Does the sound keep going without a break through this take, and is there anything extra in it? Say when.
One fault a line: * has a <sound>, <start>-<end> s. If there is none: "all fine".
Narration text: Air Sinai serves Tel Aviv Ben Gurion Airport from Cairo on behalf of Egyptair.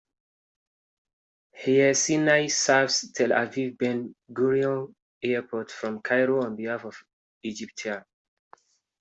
all fine